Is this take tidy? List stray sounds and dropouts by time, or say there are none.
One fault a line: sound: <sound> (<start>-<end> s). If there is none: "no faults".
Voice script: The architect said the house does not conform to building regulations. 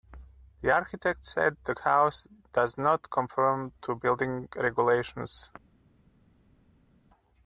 no faults